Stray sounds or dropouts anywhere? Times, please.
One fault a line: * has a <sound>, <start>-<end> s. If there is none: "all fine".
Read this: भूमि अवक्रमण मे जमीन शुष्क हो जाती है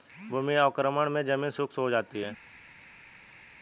all fine